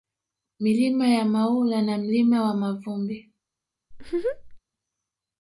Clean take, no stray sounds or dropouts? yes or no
no